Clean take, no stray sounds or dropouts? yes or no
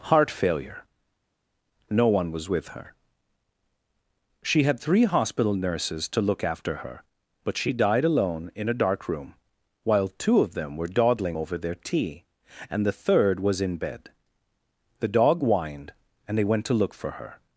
yes